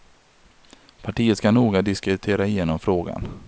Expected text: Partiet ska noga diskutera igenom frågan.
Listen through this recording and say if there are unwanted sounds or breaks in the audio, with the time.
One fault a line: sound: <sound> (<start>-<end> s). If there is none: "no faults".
no faults